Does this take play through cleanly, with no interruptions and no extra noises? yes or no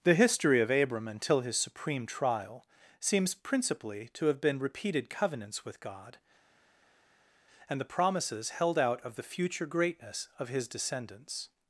yes